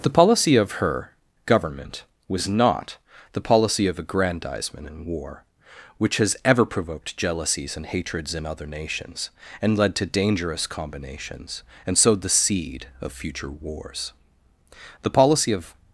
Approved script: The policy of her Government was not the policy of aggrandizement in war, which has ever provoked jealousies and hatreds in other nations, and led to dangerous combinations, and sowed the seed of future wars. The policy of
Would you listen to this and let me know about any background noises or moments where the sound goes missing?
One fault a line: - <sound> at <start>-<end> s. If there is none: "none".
none